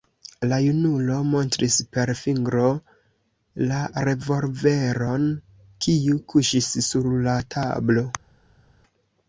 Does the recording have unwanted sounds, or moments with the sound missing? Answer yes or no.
no